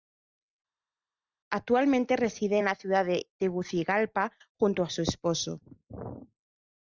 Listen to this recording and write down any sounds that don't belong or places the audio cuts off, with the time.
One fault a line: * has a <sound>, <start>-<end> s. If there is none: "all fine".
all fine